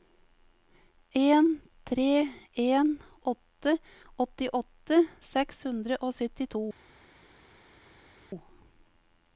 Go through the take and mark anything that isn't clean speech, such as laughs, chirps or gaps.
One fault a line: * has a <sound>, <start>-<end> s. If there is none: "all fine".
all fine